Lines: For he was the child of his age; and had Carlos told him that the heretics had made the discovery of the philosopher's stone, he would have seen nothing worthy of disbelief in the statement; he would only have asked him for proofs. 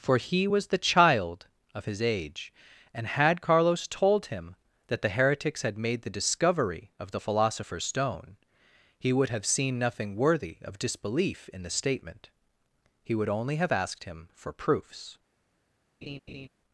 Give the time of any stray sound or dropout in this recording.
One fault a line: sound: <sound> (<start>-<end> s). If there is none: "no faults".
sound: laugh (16.0-16.5 s)